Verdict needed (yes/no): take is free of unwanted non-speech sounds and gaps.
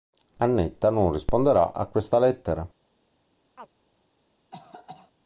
no